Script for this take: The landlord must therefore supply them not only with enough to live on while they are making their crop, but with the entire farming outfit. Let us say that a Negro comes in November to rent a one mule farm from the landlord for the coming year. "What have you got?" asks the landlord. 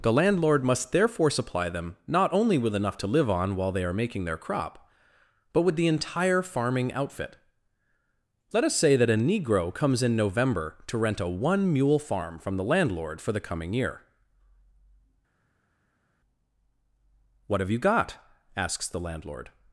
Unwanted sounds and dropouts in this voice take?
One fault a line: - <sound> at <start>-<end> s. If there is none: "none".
none